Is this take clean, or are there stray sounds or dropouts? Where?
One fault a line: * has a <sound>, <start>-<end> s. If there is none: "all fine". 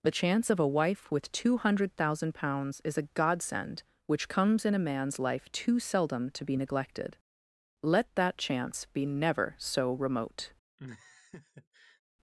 * has a laugh, 10.8-12.0 s